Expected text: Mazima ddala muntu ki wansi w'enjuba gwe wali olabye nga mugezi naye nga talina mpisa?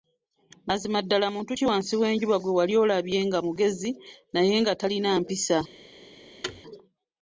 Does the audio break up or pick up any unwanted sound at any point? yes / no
yes